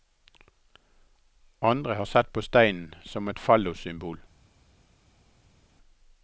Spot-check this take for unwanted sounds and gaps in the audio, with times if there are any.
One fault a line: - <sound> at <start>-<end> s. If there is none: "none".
none